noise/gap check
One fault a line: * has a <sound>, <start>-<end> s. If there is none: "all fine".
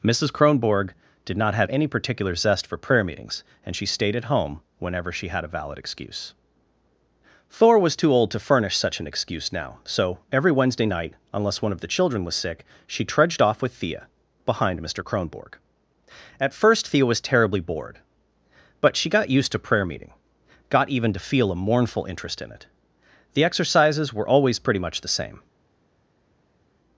all fine